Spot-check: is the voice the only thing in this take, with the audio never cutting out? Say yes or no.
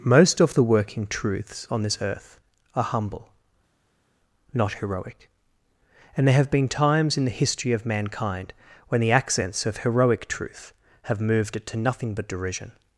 yes